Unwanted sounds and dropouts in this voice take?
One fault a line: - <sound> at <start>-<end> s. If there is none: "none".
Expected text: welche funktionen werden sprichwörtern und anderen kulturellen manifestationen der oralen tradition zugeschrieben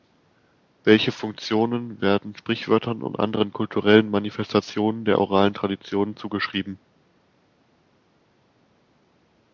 none